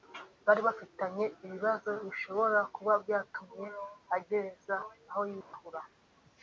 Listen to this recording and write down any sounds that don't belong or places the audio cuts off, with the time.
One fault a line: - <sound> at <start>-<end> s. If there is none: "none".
- dropout at 5.4-5.5 s